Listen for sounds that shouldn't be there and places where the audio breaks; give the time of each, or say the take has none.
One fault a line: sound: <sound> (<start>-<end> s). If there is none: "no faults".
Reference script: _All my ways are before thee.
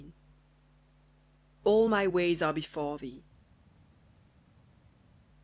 no faults